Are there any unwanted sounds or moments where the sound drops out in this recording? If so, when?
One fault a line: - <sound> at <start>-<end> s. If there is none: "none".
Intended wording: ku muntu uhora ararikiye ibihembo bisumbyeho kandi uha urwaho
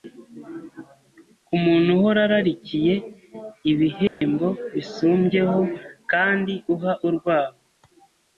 - dropout at 4.1-4.2 s